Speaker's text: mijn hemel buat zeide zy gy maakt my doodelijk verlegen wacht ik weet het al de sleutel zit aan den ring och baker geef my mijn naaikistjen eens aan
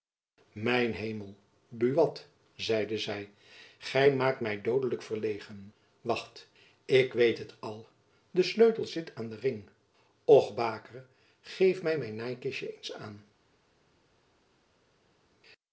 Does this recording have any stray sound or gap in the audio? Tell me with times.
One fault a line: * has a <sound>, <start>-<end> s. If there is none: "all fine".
all fine